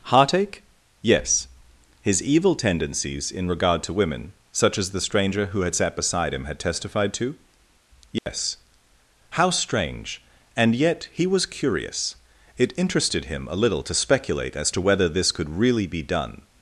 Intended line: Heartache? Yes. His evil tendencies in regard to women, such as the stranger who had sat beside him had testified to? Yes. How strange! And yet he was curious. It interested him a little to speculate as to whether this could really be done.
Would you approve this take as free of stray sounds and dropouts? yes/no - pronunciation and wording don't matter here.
no